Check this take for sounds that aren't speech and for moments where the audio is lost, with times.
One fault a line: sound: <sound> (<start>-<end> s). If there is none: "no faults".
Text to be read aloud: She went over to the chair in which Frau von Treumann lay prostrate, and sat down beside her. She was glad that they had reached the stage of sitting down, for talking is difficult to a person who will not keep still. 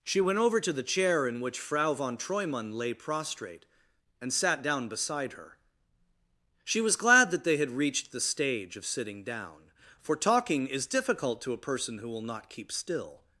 no faults